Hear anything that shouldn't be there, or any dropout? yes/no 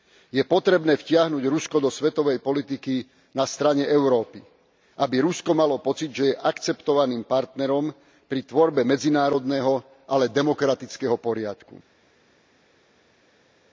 no